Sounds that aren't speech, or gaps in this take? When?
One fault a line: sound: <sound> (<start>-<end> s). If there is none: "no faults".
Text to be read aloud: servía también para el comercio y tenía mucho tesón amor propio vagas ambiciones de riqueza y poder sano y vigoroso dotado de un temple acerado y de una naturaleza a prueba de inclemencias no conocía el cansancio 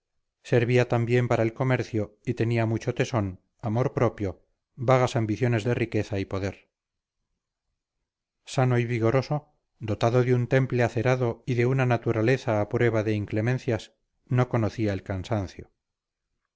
no faults